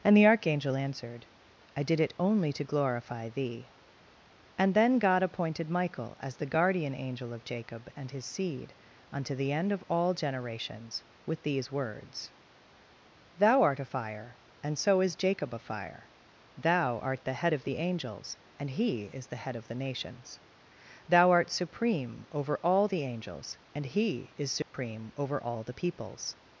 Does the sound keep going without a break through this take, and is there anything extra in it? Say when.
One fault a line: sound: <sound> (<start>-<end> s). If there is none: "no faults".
sound: dropout (24.6-24.7 s)